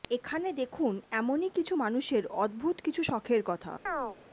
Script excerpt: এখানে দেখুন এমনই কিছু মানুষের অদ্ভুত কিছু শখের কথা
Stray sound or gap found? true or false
true